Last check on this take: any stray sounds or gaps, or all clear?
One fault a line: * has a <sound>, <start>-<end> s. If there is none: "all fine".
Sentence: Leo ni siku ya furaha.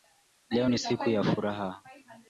all fine